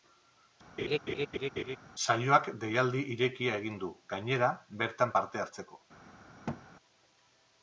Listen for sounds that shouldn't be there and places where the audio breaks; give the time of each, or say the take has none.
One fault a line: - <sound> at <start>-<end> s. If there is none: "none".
- laugh at 0.8-1.8 s
- thud at 6.5-6.6 s